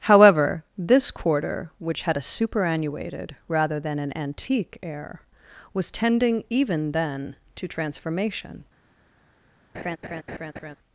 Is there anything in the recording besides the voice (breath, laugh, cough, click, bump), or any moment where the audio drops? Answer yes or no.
yes